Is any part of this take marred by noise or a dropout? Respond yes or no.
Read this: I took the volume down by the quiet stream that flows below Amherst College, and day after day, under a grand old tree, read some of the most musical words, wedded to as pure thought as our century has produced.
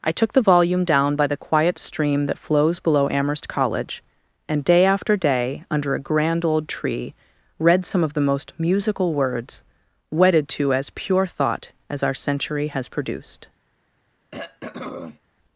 yes